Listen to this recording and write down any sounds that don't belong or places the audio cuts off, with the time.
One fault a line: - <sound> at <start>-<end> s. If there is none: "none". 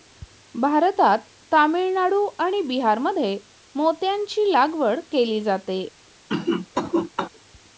- cough at 6.3-7.3 s